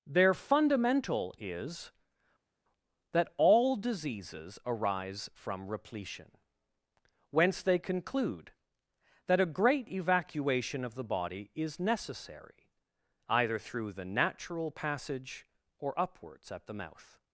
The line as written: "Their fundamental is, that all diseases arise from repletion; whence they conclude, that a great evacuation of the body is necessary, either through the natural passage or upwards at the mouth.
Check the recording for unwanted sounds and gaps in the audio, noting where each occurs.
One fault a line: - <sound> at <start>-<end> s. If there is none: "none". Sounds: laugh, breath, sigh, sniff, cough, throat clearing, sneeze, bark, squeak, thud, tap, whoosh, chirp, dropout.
none